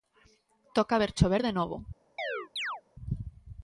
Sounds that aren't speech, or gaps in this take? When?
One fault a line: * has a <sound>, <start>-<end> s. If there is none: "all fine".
* has a chirp, 2.2-2.8 s